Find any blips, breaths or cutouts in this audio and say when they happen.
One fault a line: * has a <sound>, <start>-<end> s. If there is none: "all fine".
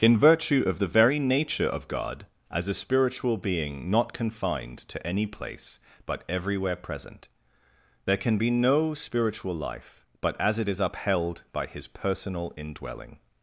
all fine